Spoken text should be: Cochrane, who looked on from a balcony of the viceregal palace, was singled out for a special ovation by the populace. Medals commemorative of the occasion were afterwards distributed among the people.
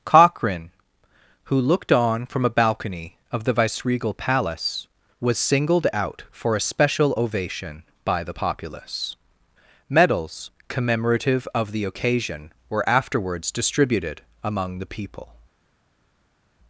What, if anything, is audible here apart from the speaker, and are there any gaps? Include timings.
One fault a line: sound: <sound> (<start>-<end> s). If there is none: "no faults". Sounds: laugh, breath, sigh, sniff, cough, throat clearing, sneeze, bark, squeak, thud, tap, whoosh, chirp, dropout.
no faults